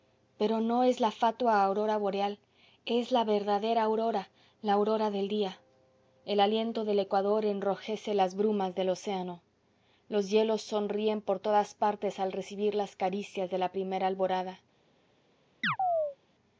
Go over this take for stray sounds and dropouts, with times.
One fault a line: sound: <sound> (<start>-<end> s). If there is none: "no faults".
sound: chirp (15.6-16.2 s)